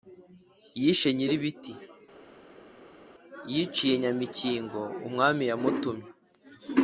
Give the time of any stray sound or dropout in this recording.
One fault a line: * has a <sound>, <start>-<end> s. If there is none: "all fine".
all fine